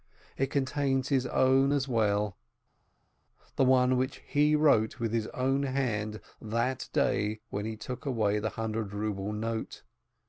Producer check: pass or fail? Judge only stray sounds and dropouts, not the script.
pass